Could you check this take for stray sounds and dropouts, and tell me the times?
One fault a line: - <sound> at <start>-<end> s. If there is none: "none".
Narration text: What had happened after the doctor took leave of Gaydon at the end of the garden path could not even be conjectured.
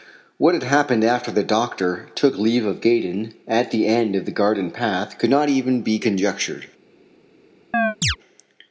- chirp at 7.7-8.2 s